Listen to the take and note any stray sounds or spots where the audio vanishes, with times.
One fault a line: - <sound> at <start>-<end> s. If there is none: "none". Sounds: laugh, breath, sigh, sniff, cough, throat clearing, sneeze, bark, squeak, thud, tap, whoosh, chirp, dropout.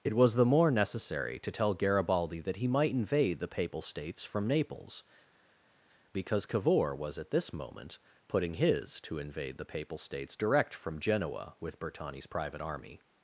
none